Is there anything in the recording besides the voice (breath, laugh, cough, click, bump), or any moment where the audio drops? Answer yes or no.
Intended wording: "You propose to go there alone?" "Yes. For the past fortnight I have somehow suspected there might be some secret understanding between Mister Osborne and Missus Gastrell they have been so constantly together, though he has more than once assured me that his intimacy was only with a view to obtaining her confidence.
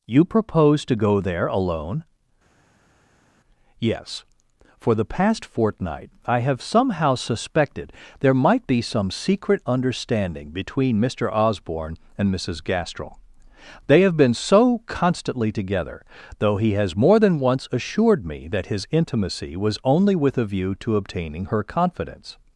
no